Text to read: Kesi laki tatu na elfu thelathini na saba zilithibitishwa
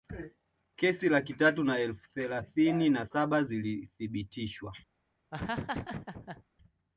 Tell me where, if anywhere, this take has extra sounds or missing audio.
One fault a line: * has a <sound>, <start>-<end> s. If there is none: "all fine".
* has a laugh, 5.3-6.4 s